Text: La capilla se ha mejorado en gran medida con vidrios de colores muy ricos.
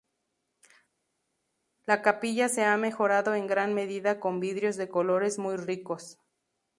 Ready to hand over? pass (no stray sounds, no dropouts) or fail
pass